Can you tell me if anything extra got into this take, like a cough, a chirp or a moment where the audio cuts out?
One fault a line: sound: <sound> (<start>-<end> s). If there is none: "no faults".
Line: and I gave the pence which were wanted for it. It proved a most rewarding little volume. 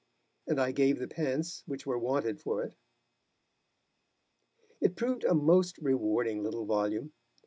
no faults